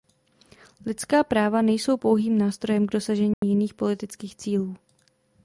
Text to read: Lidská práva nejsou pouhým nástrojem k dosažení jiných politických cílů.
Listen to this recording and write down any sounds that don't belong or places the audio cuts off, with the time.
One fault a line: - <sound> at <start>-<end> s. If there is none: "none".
- dropout at 3.3-3.4 s